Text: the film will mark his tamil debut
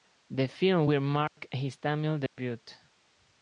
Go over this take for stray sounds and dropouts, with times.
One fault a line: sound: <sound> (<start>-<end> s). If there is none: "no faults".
sound: dropout (1.3-1.4 s)
sound: dropout (2.3-2.4 s)